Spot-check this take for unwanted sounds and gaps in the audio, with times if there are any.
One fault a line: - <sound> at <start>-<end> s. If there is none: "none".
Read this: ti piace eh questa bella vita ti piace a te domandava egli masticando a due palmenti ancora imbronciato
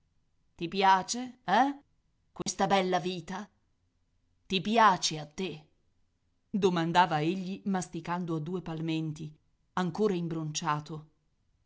- dropout at 2.4-2.5 s